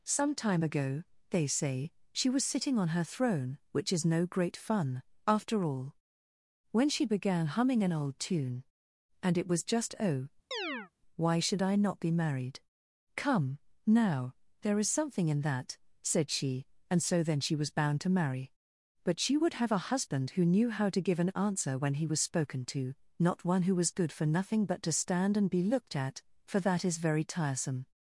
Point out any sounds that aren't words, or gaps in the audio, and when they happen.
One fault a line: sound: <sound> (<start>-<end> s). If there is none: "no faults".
sound: chirp (10.5-10.9 s)